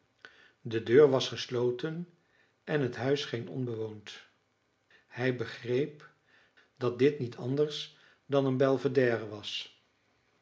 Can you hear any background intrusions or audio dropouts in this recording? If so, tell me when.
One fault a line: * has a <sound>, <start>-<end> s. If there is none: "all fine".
all fine